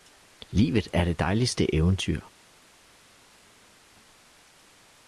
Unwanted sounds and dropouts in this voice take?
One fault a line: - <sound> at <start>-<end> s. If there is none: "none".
none